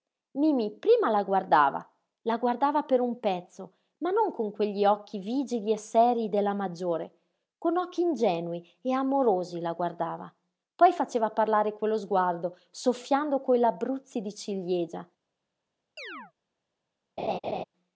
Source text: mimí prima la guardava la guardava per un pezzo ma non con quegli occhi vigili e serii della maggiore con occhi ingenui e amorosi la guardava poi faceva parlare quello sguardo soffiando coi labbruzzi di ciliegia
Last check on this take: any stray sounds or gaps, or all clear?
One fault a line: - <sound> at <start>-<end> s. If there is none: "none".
- chirp at 16.0-16.3 s
- laugh at 17.2-17.6 s